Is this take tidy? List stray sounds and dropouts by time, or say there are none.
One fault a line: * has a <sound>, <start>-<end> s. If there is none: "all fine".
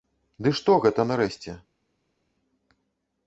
all fine